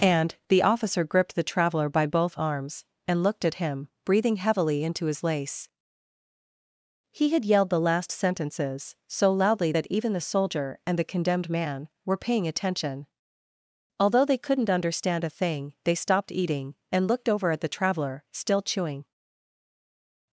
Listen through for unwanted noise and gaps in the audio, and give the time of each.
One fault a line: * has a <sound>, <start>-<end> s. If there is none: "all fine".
all fine